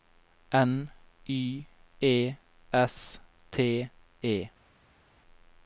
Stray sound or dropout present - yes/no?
no